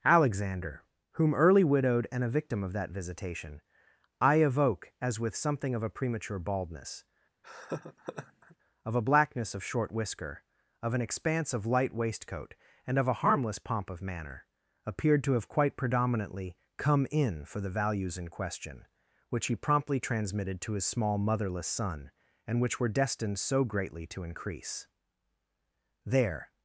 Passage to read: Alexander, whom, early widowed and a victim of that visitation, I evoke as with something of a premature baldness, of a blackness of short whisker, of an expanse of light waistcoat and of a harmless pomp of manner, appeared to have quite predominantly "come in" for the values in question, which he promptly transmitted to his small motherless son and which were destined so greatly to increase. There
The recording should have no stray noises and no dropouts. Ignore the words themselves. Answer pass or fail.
fail